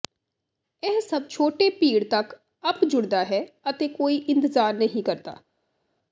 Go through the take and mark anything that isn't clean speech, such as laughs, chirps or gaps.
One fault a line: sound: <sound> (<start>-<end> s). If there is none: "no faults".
no faults